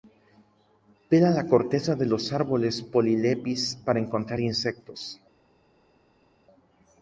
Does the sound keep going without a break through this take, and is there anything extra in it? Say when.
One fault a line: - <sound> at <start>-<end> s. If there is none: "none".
none